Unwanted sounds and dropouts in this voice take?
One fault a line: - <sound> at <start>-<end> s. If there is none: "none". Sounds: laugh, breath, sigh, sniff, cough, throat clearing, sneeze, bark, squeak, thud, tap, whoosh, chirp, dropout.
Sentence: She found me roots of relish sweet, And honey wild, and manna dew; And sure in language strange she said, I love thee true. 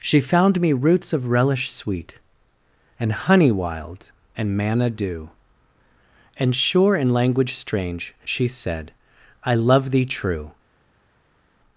none